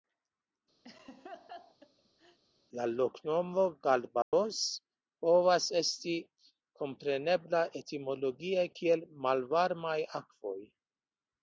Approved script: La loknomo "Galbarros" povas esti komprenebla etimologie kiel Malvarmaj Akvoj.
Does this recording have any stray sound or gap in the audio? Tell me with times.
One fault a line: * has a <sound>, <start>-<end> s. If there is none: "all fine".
* has a laugh, 0.8-2.4 s
* has a dropout, 4.2-4.3 s